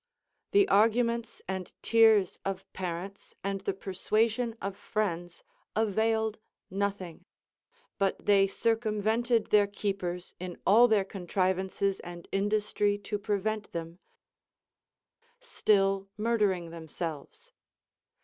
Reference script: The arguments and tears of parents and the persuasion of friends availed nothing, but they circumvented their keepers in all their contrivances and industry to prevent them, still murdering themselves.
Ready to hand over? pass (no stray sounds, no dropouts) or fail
pass